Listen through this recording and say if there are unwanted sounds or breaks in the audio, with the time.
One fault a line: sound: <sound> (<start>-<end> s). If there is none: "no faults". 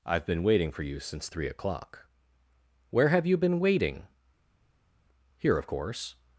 no faults